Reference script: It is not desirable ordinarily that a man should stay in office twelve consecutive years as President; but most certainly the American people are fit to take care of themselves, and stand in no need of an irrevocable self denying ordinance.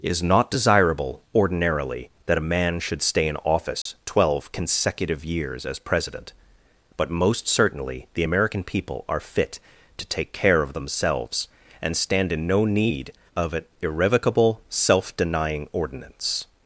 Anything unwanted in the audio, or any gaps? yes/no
yes